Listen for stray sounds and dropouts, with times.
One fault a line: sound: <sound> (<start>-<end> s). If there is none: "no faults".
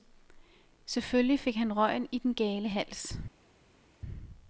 no faults